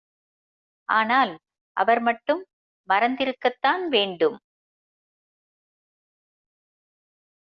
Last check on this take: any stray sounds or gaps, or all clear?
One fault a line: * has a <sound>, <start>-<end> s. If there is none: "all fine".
all fine